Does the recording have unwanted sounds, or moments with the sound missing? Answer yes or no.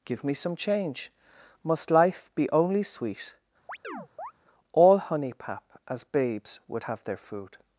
yes